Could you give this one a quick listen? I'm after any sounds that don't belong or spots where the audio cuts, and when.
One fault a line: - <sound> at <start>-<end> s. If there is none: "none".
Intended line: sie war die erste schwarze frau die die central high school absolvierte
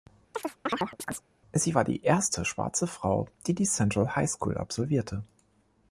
- chirp at 0.3-1.2 s